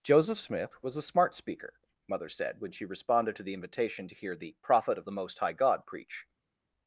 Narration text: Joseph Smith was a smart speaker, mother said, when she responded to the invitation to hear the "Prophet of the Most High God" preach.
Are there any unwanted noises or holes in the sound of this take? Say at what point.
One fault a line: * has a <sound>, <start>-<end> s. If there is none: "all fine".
all fine